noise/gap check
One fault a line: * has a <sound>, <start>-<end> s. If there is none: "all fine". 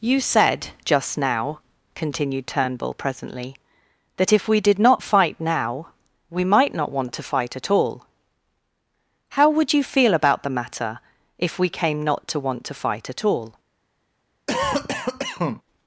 * has a cough, 14.5-15.6 s